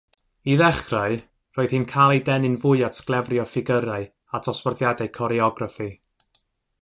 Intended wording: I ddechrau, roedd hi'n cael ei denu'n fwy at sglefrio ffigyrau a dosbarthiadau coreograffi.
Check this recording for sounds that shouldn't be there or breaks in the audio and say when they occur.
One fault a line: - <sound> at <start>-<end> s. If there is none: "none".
none